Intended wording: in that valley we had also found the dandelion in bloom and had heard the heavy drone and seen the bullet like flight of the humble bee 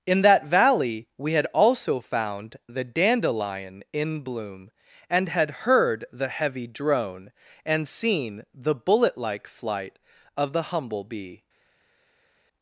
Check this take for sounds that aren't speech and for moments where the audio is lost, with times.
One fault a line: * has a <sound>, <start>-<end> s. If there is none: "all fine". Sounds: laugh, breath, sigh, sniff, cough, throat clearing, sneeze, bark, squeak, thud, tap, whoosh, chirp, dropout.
all fine